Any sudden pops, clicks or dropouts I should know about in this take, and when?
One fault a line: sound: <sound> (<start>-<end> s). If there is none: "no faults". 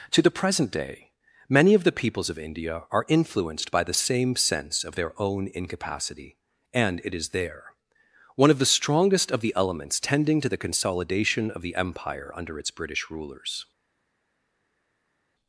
no faults